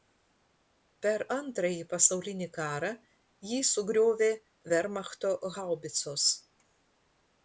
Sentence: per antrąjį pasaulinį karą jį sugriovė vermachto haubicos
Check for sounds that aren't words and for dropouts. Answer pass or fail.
pass